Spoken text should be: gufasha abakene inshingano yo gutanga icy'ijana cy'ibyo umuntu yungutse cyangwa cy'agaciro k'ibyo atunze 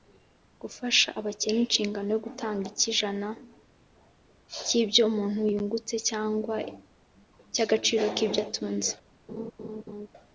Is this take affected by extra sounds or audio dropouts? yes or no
yes